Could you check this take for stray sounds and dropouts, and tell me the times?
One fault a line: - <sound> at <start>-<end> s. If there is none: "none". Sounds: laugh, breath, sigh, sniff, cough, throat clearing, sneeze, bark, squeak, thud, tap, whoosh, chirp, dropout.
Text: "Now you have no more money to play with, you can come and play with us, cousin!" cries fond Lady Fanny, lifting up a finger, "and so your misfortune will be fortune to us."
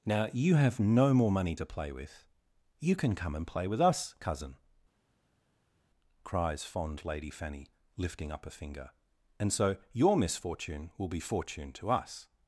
none